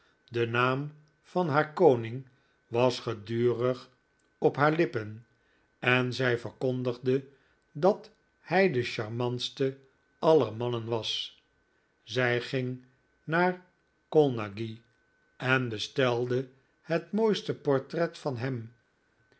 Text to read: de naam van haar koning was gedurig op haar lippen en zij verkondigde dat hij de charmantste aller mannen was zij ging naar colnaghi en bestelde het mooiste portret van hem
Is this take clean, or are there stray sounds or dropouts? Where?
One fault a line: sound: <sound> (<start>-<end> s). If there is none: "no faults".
no faults